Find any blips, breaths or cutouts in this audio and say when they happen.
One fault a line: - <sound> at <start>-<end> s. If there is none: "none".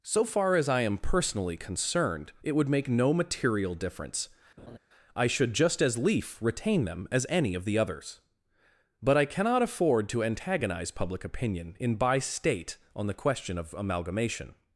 - laugh at 4.6-4.8 s